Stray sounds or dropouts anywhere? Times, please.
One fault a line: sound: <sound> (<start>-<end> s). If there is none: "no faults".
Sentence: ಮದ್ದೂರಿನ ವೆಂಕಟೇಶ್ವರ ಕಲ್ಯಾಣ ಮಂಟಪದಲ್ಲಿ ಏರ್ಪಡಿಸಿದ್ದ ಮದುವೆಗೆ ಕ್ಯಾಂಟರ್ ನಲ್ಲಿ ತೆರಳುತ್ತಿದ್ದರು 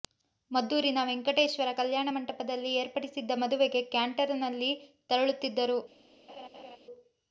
sound: laugh (6.3-6.8 s)